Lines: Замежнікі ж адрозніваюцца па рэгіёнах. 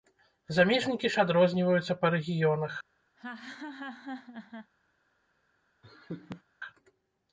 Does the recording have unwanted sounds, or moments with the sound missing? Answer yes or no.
yes